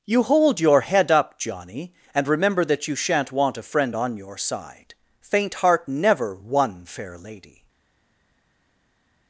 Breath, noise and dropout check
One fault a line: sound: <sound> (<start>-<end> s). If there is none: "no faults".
no faults